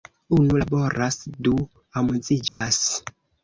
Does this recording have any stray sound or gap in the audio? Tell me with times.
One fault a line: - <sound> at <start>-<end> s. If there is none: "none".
- dropout at 2.5-2.6 s